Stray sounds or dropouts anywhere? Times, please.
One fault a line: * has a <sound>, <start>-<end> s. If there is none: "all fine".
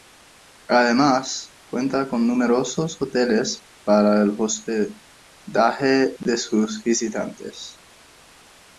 all fine